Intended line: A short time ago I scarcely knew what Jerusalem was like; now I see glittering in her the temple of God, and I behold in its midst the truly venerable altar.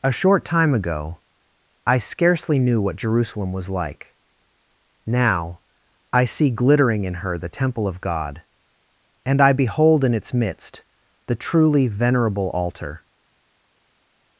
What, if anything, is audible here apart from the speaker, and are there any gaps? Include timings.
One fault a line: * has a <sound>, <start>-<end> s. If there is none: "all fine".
all fine